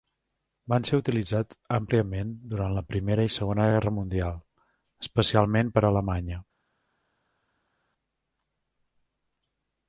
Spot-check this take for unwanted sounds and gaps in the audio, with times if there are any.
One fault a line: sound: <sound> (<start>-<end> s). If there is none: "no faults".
no faults